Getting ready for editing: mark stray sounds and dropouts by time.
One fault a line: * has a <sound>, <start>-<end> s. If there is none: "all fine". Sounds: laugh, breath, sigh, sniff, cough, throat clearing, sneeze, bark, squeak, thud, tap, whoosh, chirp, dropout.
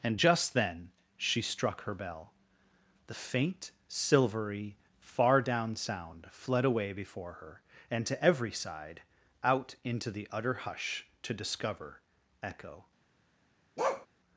* has a bark, 13.8-14.1 s